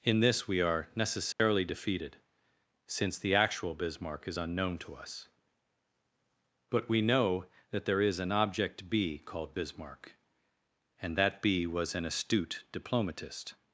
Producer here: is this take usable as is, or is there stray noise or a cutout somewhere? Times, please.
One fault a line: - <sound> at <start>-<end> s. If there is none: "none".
- dropout at 1.3-1.4 s